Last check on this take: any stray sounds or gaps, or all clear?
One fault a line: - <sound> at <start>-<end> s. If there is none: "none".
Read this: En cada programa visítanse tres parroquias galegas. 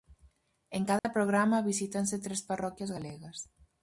- dropout at 1.0-1.0 s